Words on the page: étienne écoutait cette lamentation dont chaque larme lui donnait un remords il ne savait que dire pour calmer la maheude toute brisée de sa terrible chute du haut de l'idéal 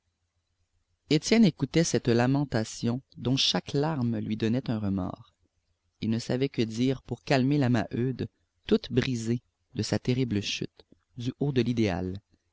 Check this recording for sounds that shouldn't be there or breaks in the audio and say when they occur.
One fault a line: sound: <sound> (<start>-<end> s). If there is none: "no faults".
no faults